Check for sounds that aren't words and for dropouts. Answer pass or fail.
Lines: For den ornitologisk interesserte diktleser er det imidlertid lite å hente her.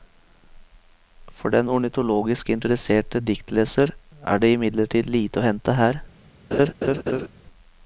fail